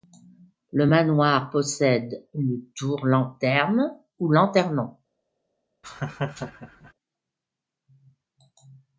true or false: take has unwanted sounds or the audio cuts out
true